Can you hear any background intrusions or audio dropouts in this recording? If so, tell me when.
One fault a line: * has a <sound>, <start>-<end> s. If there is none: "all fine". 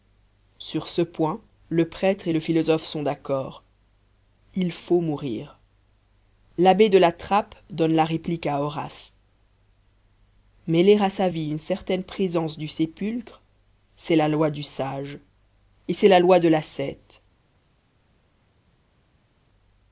all fine